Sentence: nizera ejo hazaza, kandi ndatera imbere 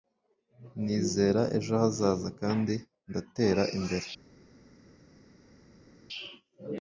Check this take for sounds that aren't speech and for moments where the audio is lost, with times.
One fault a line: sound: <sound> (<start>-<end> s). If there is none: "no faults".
no faults